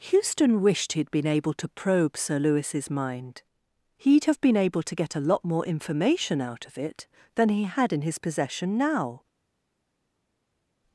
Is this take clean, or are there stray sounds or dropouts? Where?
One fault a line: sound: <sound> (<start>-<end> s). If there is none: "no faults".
no faults